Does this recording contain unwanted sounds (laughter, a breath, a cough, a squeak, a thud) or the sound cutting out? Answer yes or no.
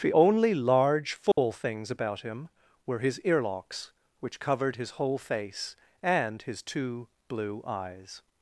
yes